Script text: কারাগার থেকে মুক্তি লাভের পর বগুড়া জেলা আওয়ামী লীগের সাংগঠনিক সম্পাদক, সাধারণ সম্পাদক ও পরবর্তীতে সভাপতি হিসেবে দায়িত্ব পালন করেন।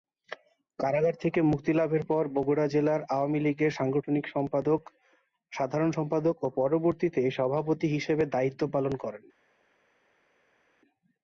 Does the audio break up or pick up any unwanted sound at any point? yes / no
no